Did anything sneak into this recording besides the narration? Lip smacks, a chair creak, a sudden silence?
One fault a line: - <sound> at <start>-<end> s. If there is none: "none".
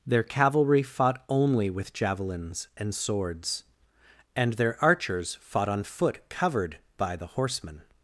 none